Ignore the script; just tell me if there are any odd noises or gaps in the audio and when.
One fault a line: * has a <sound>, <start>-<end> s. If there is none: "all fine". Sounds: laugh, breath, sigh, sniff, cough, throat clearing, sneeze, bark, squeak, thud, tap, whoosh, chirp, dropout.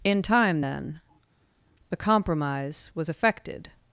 all fine